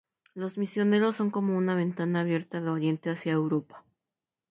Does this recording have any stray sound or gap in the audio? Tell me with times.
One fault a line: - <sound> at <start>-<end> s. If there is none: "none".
none